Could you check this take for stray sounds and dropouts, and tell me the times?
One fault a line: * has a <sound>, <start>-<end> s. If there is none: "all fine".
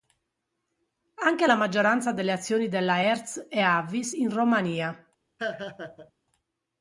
* has a laugh, 5.4-6.1 s